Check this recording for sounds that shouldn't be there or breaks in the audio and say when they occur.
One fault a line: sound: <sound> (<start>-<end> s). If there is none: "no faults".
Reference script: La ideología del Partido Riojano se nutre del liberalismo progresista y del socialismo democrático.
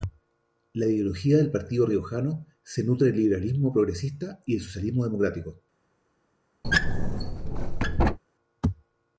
sound: squeak (6.6-8.2 s)